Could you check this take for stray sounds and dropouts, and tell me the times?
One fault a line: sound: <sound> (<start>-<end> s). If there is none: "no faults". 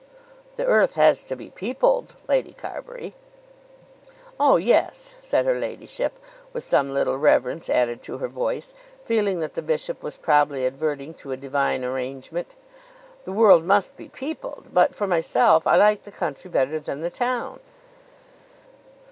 no faults